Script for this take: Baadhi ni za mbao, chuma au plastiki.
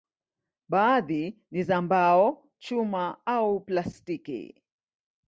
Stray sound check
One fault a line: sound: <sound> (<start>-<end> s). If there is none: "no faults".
no faults